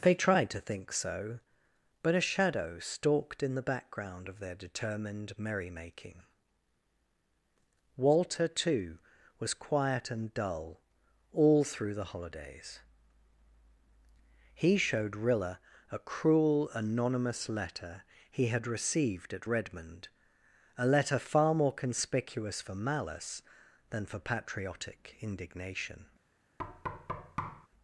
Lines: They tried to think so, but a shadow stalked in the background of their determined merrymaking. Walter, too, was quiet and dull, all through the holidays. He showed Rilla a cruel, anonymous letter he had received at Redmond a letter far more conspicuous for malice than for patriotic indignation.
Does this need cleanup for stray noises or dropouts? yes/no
yes